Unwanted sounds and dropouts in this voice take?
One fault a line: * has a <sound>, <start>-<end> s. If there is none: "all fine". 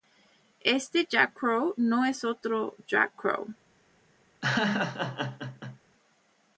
* has a laugh, 4.4-5.8 s